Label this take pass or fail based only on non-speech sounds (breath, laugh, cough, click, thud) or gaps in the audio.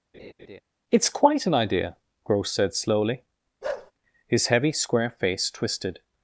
fail